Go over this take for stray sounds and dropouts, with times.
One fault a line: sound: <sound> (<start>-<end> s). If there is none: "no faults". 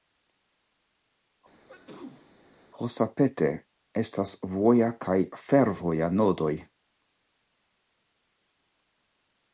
sound: sneeze (1.7-2.3 s)